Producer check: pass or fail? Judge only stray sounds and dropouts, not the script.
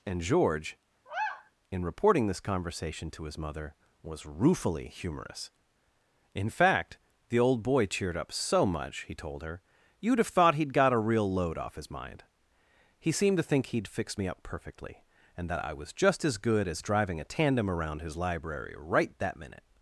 fail